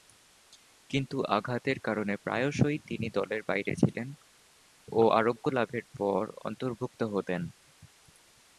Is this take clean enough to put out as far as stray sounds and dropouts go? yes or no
yes